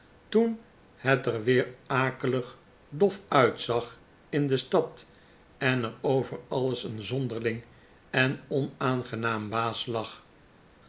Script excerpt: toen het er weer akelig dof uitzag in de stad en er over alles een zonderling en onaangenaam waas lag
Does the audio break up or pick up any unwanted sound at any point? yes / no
no